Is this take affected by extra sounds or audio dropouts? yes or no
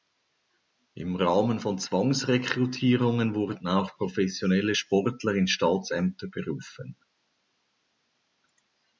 no